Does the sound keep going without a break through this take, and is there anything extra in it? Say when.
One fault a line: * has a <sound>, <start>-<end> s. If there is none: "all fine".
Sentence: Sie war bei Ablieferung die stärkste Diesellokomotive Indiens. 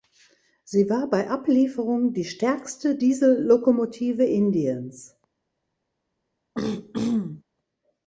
* has a throat clearing, 6.5-7.4 s